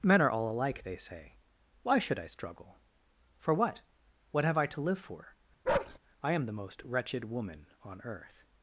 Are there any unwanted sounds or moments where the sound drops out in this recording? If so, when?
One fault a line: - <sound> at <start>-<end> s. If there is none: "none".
- bark at 5.6-6.0 s